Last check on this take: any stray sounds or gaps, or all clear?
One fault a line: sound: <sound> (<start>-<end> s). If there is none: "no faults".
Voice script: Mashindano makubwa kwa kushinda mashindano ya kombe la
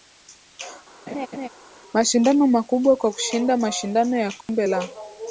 sound: laugh (1.1-1.5 s)
sound: dropout (4.4-4.5 s)